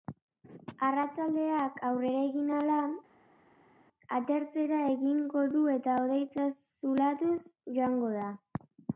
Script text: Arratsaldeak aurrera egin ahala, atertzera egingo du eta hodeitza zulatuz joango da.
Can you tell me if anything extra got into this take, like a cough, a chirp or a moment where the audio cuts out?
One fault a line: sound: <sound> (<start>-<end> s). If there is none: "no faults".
no faults